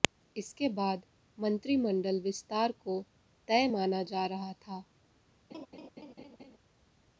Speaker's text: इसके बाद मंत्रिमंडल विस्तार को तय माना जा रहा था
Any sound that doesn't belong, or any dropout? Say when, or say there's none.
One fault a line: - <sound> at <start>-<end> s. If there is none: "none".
- laugh at 5.5-6.6 s